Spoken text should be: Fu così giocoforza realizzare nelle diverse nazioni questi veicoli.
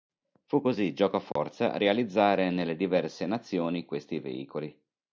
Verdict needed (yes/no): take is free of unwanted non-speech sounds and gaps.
no